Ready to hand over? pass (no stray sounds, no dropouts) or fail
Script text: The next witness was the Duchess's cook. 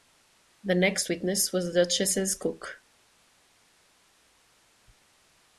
pass